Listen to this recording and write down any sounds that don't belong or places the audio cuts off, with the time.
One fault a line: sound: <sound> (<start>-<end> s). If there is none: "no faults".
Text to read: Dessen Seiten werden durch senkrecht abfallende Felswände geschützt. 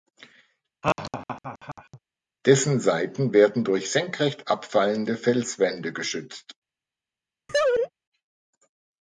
sound: laugh (0.8-2.0 s)
sound: laugh (7.5-7.9 s)